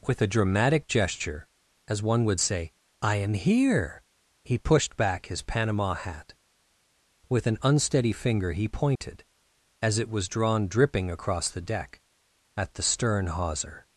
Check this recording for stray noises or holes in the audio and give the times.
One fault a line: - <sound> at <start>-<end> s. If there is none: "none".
- dropout at 9.0-9.0 s